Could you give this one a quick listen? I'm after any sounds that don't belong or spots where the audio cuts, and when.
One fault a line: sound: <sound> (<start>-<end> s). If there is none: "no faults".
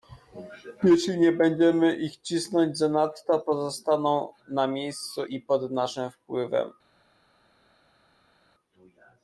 no faults